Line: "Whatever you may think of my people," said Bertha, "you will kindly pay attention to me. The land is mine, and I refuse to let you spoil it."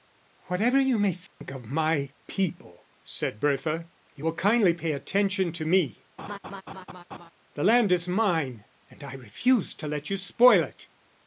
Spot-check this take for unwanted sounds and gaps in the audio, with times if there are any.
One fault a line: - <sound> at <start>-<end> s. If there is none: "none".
- dropout at 1.3-1.4 s
- laugh at 6.2-7.3 s